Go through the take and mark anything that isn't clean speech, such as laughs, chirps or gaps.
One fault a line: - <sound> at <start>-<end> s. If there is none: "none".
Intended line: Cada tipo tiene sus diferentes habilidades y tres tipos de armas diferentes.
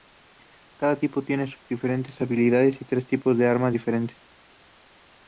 none